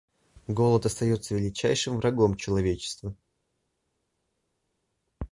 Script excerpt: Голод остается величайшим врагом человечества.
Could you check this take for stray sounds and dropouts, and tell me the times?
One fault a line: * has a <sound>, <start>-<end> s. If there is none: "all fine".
all fine